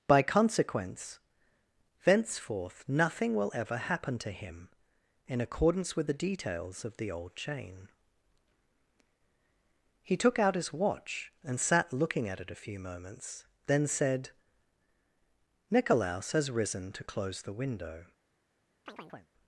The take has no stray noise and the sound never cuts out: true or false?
false